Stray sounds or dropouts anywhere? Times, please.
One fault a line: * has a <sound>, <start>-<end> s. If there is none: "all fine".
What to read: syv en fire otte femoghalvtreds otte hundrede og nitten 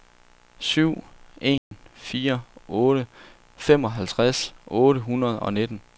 * has a dropout, 1.6-1.7 s